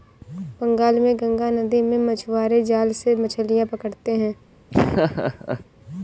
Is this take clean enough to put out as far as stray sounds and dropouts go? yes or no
no